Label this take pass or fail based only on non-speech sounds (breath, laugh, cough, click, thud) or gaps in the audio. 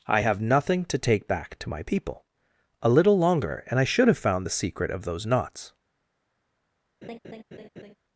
fail